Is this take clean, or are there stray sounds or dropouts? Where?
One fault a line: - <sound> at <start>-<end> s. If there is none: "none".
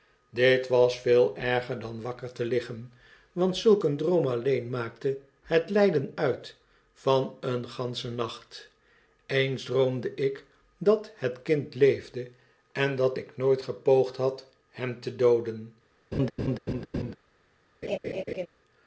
- laugh at 16.1-17.2 s
- laugh at 17.8-18.5 s